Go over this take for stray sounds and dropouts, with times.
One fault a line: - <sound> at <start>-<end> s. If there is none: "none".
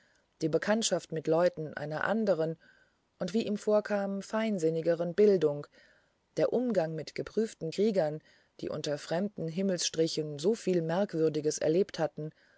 none